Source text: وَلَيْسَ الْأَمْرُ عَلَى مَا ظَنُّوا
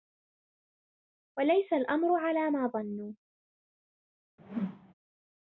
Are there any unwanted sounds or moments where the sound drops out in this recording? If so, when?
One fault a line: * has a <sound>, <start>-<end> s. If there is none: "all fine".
* has a whoosh, 4.4-4.9 s